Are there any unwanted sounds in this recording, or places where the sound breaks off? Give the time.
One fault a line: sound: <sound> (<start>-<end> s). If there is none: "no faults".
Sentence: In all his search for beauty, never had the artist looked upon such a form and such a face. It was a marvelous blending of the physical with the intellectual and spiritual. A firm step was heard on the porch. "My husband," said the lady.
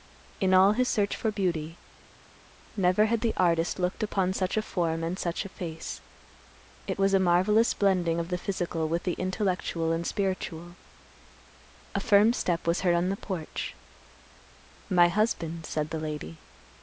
no faults